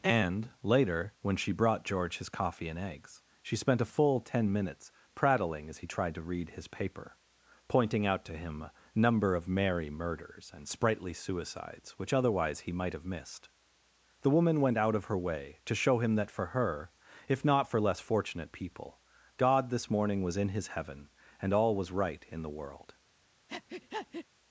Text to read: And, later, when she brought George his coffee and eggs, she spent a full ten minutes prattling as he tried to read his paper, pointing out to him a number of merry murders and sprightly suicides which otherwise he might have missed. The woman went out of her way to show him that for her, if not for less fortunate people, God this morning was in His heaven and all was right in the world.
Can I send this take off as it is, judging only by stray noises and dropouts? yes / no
no